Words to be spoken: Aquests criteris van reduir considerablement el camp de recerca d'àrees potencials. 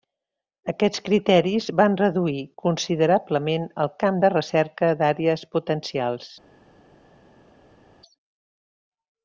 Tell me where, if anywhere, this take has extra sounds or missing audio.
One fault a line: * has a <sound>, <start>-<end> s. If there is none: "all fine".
all fine